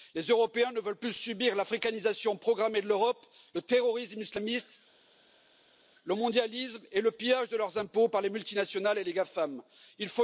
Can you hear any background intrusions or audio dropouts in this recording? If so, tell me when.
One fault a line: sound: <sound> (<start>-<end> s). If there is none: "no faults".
no faults